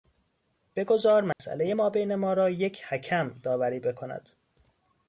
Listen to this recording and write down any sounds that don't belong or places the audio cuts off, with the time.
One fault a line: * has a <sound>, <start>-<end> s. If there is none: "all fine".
* has a dropout, 1.3-1.4 s